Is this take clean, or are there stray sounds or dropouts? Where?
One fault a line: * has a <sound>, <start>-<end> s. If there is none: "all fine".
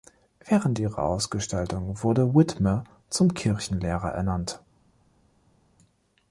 all fine